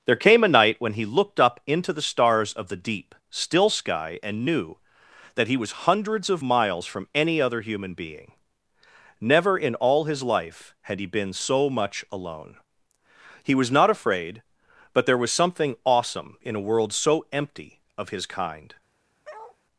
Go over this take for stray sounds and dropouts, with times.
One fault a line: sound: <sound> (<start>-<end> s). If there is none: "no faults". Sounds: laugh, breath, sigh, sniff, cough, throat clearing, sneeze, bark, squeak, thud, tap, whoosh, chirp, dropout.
sound: bark (19.2-19.6 s)